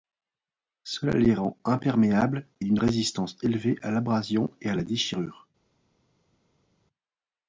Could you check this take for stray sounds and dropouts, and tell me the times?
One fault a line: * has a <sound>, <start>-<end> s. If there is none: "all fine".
all fine